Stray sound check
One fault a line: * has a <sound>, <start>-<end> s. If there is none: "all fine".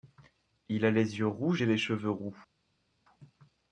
all fine